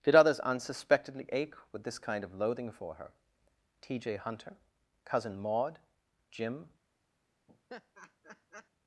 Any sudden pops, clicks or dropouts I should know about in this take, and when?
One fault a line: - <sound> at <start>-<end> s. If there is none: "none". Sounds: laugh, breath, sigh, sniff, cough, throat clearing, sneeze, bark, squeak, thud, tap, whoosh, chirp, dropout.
- laugh at 7.5-8.7 s